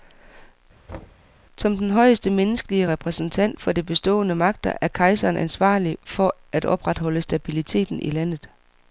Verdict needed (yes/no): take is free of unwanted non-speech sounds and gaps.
no